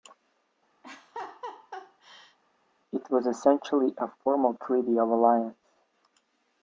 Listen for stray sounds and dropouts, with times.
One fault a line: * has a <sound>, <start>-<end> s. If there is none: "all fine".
* has a laugh, 0.8-2.4 s